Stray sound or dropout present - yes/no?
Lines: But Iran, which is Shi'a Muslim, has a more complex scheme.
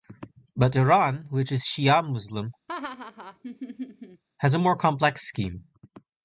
yes